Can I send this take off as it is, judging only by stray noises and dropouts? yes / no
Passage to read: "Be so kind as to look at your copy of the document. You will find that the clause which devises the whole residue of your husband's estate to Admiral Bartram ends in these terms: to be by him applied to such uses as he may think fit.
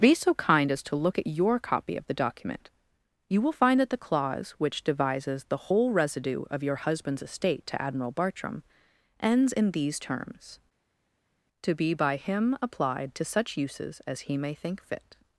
yes